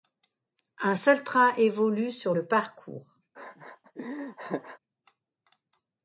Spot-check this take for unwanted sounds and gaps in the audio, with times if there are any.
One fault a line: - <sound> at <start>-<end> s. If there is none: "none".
- laugh at 3.3-4.8 s